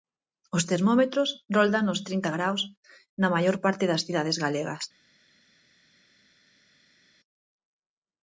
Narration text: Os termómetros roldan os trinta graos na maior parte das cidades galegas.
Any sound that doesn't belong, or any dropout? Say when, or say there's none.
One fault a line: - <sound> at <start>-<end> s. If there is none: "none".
none